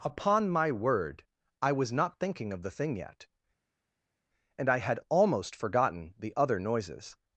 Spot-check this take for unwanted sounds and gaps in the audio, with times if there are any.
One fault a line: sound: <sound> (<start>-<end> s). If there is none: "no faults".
no faults